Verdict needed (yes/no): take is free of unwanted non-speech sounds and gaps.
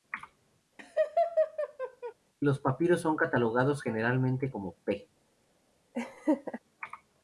no